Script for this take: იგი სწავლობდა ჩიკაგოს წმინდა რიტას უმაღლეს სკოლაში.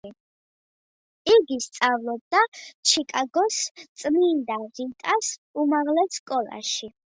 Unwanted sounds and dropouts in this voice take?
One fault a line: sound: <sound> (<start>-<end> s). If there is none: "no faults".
no faults